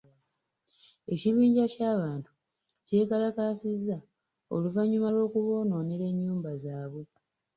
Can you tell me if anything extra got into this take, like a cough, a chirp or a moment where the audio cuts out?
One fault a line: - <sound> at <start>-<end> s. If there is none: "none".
none